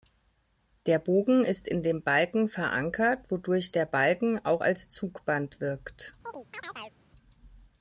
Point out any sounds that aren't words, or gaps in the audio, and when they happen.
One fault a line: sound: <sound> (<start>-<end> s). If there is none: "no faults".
sound: chirp (6.2-7.0 s)